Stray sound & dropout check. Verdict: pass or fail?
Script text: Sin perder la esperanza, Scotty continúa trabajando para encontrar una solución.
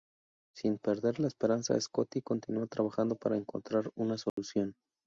fail